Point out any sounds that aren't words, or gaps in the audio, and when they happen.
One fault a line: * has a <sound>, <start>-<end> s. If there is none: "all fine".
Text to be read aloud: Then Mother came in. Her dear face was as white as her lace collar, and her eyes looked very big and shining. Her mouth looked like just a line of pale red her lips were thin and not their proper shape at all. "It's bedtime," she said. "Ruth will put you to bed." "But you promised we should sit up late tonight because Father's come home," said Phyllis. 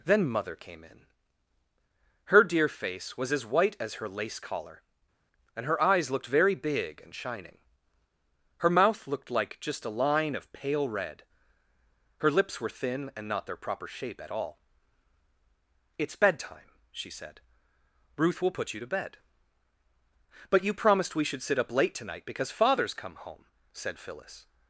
all fine